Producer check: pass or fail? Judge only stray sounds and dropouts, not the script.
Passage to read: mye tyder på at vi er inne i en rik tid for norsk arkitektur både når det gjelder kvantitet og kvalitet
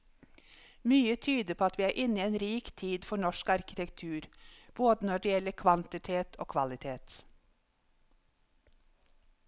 pass